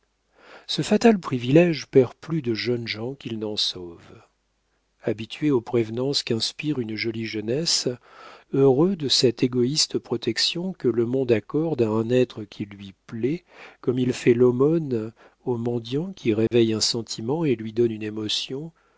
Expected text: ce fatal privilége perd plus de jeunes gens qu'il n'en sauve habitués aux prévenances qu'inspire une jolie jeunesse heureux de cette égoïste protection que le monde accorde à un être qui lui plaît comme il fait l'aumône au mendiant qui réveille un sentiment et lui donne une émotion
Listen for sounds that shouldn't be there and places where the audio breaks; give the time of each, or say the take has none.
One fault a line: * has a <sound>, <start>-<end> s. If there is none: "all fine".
* has a dropout, 16.5-16.5 s